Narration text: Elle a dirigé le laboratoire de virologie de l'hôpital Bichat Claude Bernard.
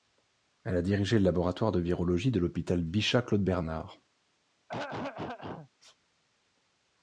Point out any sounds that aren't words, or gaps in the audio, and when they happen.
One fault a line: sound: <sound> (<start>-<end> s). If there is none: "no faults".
sound: throat clearing (4.7-5.7 s)